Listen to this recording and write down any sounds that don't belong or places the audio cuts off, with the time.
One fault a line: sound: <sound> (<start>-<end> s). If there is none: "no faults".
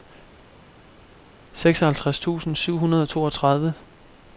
no faults